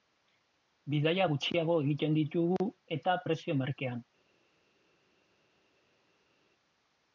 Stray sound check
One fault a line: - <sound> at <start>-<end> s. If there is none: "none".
none